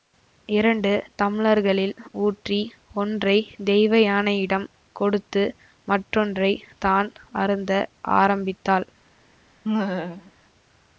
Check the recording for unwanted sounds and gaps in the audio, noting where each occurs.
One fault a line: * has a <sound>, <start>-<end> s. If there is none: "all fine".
* has a laugh, 9.6-10.3 s